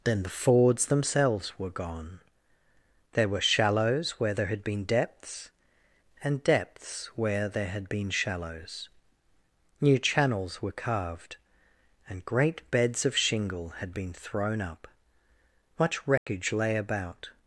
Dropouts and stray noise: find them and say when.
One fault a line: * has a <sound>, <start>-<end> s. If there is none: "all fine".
* has a dropout, 16.2-16.3 s